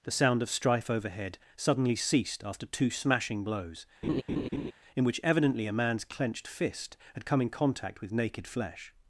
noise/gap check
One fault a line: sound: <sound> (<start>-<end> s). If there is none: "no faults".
sound: laugh (4.0-4.7 s)